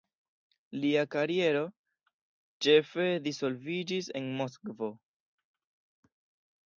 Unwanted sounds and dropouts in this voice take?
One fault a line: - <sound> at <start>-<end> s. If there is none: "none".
none